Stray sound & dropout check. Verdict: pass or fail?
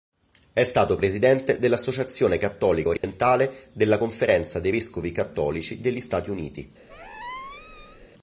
fail